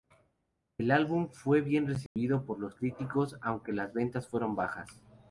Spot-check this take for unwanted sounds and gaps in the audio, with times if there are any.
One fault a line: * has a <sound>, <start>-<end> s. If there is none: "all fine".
* has a dropout, 2.1-2.2 s